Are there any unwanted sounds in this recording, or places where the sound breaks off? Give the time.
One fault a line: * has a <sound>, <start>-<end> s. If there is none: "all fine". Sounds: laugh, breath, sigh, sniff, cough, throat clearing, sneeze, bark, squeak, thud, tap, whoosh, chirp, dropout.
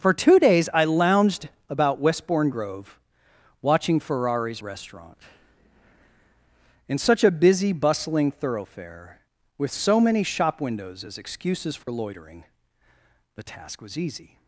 * has a dropout, 11.8-11.9 s